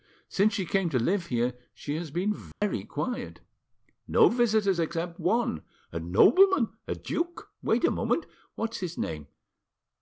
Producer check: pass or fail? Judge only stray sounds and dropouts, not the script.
fail